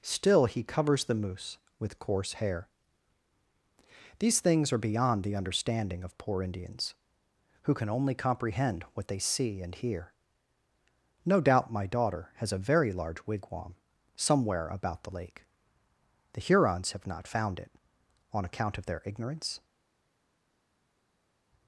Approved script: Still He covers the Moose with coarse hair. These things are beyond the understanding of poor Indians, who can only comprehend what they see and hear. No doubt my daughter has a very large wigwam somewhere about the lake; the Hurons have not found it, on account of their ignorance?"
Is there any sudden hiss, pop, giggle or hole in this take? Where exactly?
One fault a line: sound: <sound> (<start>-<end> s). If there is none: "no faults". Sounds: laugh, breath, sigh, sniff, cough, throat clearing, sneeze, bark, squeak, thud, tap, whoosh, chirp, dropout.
no faults